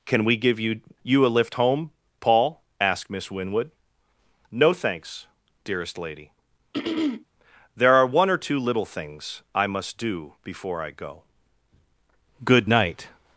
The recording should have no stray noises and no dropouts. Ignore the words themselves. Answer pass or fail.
fail